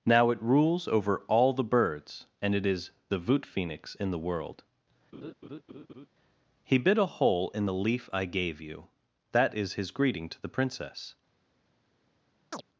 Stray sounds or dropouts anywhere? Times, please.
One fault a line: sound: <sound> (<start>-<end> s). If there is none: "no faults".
sound: laugh (5.1-6.1 s)
sound: chirp (12.5-12.6 s)